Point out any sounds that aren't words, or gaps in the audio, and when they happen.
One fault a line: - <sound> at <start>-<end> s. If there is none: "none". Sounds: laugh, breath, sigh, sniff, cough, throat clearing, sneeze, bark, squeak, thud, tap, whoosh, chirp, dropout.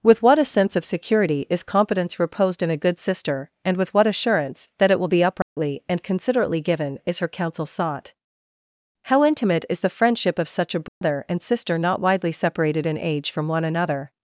- dropout at 5.4-5.6 s
- dropout at 10.9-11.0 s